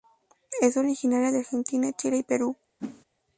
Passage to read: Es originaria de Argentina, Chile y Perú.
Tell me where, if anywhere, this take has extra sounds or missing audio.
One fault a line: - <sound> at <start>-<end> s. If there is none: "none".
- whoosh at 2.8-3.0 s